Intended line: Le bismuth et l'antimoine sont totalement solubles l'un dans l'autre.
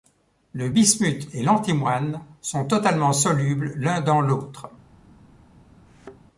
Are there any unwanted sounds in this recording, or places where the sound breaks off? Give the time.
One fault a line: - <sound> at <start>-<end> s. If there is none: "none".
- thud at 5.9-6.2 s